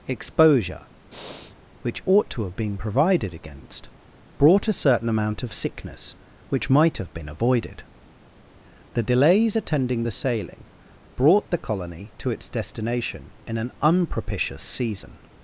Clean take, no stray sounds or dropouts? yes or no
no